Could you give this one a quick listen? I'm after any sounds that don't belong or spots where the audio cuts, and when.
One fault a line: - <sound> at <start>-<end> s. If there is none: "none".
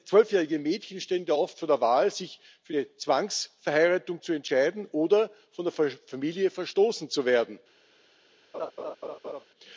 - laugh at 8.5-9.4 s